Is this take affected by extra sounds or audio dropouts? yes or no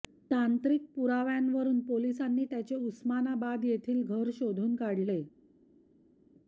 no